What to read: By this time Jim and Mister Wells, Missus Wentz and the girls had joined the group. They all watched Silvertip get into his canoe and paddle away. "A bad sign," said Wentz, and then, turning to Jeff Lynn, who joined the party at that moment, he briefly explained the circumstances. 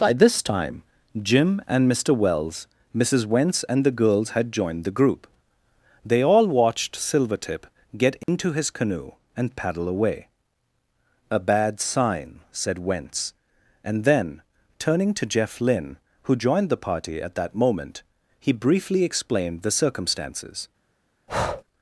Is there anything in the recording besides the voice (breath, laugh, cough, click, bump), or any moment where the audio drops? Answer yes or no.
yes